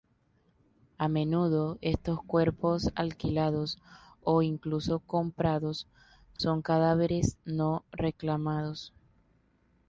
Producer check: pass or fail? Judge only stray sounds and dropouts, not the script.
fail